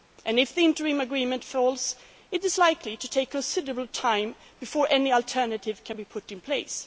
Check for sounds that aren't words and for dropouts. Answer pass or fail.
pass